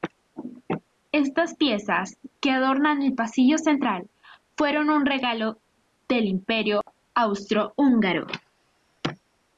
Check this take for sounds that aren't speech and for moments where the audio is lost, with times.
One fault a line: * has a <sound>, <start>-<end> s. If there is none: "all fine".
* has a dropout, 6.8-6.9 s